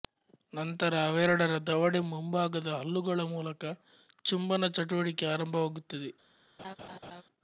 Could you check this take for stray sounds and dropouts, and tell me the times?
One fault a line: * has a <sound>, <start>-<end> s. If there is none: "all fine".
* has a laugh, 6.6-7.2 s